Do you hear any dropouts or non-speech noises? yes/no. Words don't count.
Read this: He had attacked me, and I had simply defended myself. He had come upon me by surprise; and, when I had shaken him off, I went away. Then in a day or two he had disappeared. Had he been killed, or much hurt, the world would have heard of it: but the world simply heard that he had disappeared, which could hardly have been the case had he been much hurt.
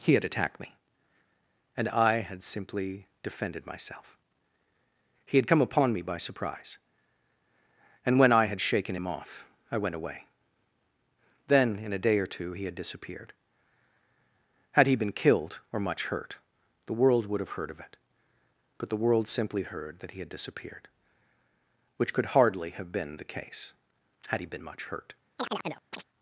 yes